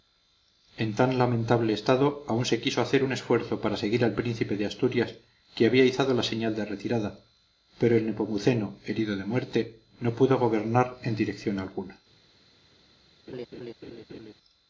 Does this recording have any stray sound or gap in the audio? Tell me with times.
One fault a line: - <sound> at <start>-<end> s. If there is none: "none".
- laugh at 13.3-14.3 s